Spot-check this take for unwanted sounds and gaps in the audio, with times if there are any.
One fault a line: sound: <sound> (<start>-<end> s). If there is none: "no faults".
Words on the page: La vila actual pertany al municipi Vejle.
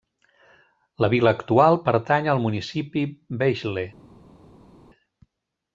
no faults